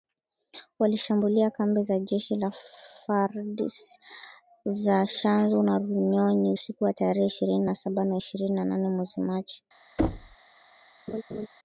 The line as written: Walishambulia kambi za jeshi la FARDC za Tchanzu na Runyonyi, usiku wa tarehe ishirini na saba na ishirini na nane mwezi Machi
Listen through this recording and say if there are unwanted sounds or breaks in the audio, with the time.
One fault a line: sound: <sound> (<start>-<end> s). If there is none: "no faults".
sound: thud (10.0-10.4 s)
sound: laugh (11.1-11.5 s)